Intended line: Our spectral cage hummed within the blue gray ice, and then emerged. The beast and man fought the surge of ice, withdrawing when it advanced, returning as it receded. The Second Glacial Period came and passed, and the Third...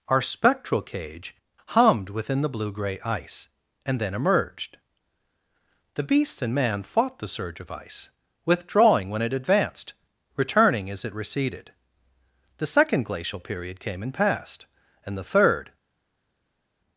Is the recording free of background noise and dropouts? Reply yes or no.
yes